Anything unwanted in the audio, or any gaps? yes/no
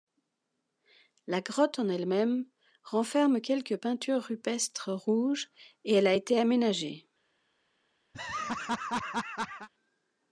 yes